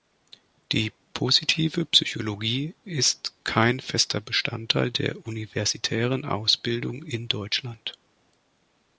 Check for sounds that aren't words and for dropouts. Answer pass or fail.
pass